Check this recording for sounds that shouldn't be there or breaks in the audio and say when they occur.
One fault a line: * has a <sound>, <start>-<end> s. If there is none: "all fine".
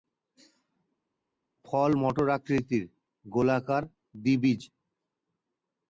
all fine